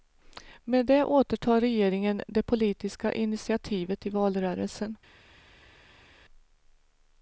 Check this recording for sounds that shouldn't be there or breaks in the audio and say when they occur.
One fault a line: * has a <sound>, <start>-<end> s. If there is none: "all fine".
all fine